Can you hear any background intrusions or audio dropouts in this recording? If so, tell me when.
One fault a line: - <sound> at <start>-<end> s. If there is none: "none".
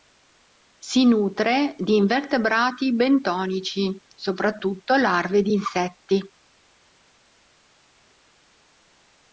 none